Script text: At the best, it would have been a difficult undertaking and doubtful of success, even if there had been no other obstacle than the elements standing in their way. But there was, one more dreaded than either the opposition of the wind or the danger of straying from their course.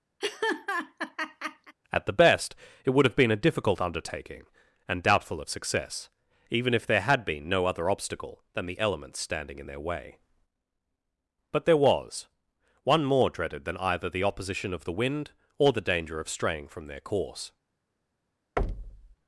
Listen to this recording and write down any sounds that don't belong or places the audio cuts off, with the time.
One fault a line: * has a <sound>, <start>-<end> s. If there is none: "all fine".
* has a laugh, 0.2-1.8 s
* has a thud, 18.6-19.2 s